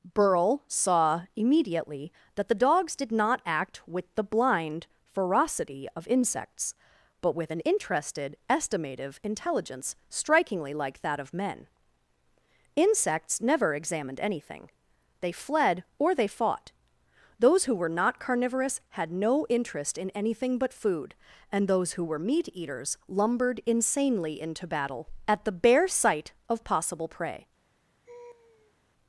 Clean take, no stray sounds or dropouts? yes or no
no